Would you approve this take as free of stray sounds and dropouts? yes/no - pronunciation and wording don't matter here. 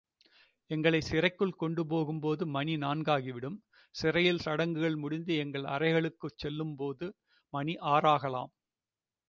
yes